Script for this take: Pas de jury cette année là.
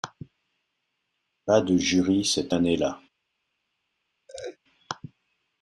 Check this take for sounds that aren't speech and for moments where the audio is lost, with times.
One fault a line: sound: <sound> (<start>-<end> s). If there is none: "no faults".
sound: laugh (4.3-4.6 s)